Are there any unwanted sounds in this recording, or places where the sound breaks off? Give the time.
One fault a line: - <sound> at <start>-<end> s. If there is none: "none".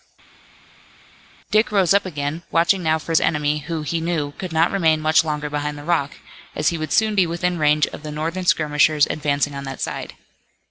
none